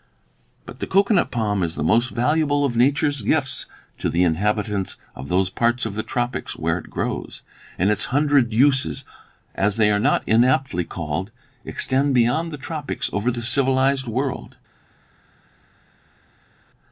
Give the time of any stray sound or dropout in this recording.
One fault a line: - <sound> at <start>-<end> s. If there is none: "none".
none